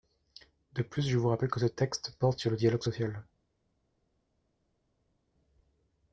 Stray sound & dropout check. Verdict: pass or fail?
pass